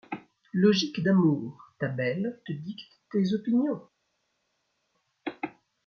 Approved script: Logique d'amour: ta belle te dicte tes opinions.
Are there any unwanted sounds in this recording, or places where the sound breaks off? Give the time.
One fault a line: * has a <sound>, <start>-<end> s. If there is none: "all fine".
all fine